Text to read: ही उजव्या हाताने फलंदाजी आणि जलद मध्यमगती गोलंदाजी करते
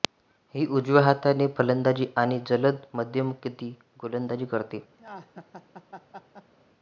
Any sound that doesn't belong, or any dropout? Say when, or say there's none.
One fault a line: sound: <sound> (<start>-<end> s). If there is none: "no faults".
sound: laugh (5.0-6.5 s)